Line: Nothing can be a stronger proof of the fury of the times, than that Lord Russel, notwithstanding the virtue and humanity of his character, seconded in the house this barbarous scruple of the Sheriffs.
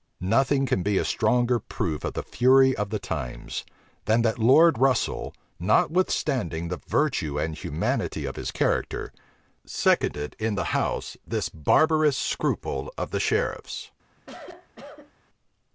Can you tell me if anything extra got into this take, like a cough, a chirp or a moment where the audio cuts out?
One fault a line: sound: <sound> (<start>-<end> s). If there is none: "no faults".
sound: cough (14.2-15.1 s)